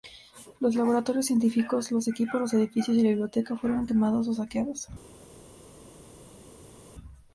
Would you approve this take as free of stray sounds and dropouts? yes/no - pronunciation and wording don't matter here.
yes